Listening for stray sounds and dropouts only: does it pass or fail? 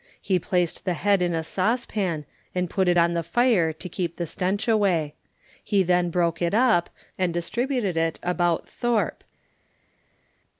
pass